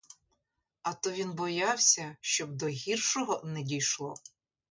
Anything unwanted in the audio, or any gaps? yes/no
no